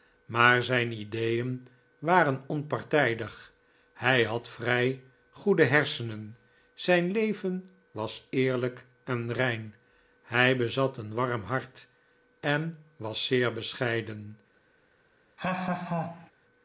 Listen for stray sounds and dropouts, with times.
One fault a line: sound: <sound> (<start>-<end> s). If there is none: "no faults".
sound: laugh (15.4-16.3 s)